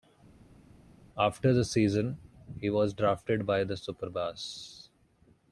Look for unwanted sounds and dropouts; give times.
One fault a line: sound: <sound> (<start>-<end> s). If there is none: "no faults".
no faults